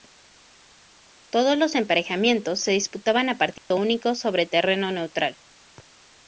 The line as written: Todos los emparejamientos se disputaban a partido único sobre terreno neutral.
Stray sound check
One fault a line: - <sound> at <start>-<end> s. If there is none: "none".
- dropout at 3.6-3.7 s